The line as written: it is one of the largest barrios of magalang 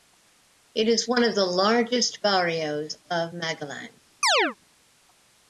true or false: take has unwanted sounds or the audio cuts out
true